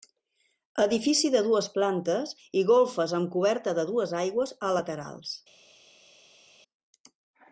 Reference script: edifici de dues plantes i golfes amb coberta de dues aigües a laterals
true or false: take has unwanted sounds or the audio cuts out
false